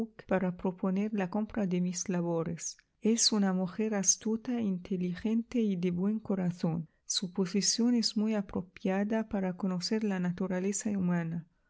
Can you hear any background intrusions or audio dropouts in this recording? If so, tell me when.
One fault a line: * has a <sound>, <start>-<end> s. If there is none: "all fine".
all fine